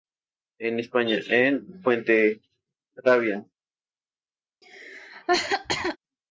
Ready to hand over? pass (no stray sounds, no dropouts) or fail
fail